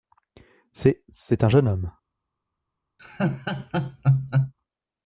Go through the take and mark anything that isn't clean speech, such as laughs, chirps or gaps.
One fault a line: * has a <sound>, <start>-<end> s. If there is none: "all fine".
* has a laugh, 3.0-4.5 s